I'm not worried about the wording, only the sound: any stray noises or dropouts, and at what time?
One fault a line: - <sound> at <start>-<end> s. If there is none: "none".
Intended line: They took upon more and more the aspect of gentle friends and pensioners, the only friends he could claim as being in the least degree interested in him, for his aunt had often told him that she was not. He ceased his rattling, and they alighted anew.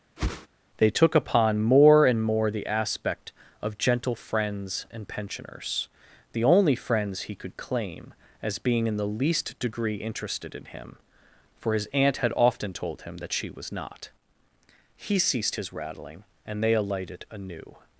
- whoosh at 0.2-0.5 s